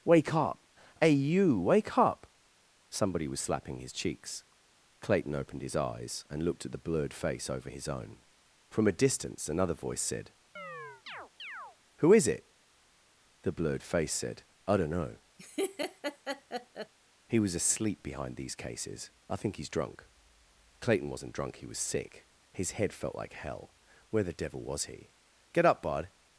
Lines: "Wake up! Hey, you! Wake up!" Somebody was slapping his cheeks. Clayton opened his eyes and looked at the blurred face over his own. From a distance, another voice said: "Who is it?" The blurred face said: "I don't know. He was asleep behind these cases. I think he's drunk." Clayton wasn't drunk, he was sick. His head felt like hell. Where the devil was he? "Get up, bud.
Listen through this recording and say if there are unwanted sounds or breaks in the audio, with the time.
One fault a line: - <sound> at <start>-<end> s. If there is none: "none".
- chirp at 10.6-11.8 s
- laugh at 15.4-16.9 s